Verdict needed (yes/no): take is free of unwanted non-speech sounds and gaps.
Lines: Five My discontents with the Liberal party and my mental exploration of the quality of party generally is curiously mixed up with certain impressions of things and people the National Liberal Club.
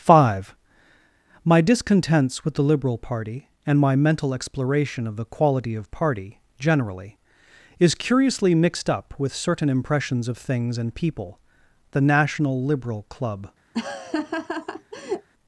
no